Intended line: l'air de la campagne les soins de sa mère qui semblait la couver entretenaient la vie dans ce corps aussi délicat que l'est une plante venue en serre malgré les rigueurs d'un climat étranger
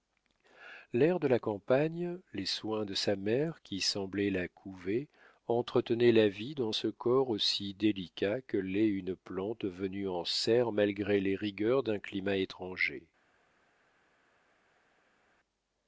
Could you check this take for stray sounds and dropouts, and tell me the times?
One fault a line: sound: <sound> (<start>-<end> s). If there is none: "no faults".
no faults